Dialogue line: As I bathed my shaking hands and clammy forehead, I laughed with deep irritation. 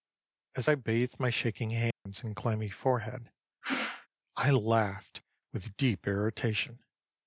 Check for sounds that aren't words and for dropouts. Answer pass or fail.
fail